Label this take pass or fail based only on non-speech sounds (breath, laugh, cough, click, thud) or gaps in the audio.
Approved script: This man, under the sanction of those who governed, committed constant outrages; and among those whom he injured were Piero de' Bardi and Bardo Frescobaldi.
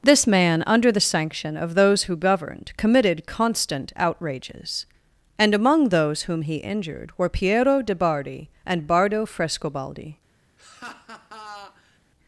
fail